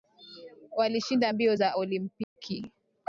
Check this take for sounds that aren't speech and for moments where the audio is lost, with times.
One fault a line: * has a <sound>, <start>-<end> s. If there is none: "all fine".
* has a dropout, 2.2-2.4 s